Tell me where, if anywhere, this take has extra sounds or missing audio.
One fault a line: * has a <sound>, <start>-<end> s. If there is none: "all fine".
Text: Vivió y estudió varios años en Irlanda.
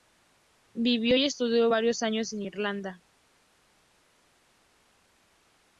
all fine